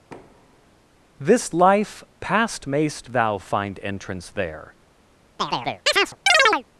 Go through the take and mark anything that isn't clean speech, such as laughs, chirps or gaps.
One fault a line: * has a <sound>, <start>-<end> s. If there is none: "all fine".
* has a thud, 0.1-0.7 s
* has a chirp, 5.4-6.6 s